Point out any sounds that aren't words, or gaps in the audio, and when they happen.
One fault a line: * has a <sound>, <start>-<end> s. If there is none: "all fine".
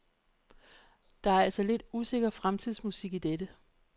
all fine